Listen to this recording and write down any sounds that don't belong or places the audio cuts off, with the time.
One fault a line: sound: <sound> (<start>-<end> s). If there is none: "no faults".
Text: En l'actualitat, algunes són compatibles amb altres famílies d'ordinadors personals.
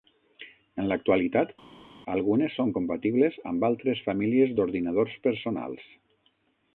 no faults